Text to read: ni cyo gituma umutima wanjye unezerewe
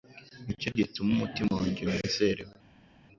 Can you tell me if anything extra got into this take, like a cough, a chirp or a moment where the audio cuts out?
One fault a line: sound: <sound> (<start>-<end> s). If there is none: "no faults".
no faults